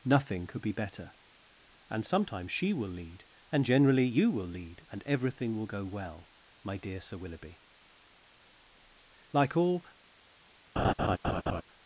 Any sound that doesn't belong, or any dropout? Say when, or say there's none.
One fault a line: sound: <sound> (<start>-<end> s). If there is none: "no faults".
sound: laugh (10.8-11.6 s)